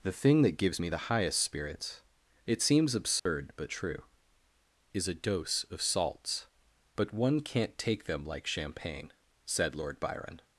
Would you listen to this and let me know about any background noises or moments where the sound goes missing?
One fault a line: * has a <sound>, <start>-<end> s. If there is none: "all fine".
* has a dropout, 3.2-3.3 s